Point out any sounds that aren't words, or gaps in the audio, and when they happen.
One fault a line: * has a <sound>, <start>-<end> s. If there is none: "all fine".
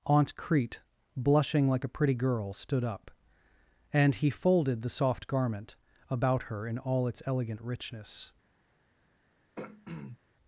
* has a throat clearing, 9.6-10.2 s